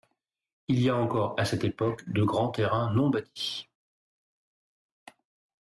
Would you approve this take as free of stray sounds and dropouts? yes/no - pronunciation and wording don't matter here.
yes